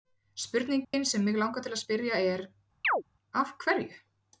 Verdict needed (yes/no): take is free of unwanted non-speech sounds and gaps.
no